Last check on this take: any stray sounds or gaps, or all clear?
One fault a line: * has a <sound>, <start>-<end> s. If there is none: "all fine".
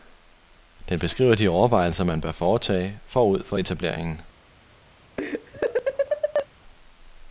* has a laugh, 5.2-6.5 s